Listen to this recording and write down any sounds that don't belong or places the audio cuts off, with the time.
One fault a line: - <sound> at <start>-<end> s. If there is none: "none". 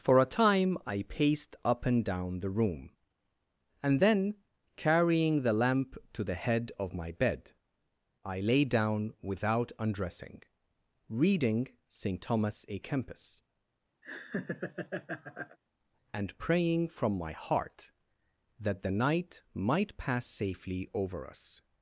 - laugh at 14.0-15.6 s